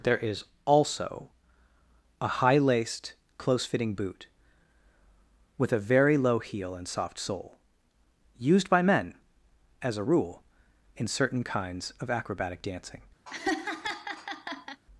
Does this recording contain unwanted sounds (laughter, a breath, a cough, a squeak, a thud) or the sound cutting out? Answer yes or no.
yes